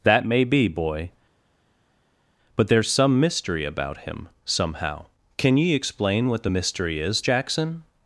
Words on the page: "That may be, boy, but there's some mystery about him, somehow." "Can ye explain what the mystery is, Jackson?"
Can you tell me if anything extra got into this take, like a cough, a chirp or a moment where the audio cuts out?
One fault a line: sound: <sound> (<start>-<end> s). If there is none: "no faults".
no faults